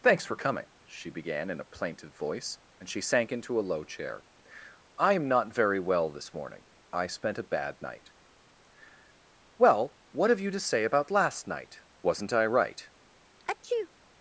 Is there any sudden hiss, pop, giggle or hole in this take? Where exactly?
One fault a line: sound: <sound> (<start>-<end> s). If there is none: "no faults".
sound: sneeze (13.4-13.9 s)